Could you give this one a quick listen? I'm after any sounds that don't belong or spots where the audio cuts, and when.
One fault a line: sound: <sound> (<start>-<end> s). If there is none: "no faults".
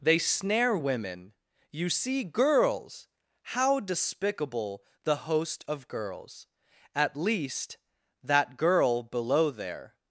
no faults